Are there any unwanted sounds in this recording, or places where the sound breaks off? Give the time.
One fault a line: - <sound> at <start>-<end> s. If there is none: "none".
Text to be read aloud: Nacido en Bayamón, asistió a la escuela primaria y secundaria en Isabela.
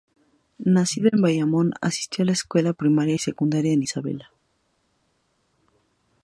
none